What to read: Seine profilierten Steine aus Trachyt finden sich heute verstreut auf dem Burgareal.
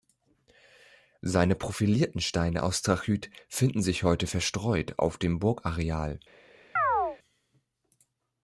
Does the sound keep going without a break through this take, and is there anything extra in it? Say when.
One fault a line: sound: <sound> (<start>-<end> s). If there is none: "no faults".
sound: chirp (6.8-7.2 s)